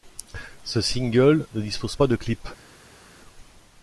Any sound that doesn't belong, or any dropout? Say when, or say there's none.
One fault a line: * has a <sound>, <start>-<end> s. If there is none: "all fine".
all fine